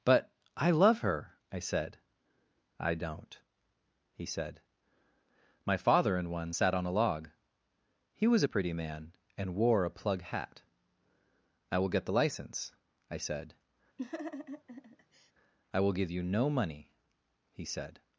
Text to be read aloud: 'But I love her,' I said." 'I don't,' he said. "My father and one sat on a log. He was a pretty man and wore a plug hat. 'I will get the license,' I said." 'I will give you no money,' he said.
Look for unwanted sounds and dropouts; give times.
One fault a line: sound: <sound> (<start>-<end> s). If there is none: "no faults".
sound: laugh (14.0-15.3 s)